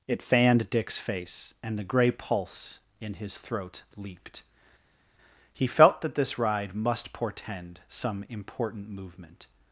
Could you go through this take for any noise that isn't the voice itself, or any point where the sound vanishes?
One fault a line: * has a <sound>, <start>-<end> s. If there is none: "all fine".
all fine